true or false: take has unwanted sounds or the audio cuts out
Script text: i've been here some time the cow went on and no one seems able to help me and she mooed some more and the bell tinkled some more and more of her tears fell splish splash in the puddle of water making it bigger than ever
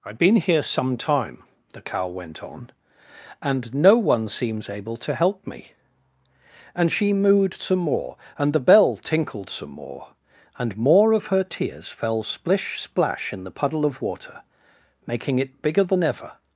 false